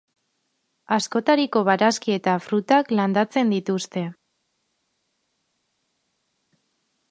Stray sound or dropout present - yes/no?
no